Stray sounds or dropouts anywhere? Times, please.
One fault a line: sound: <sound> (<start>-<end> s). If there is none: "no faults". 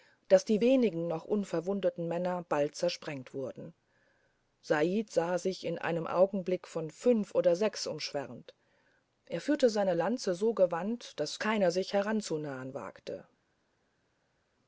no faults